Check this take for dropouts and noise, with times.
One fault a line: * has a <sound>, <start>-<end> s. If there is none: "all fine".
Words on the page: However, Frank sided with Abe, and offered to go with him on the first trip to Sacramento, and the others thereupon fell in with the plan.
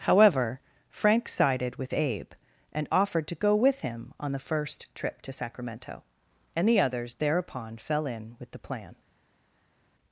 all fine